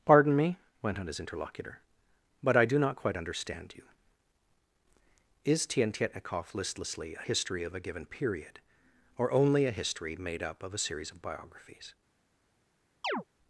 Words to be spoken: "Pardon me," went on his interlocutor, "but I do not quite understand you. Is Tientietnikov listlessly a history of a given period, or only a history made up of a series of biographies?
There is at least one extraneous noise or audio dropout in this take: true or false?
true